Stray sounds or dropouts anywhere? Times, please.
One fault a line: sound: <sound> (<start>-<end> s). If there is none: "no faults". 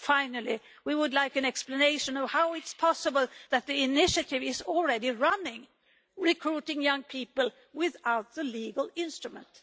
no faults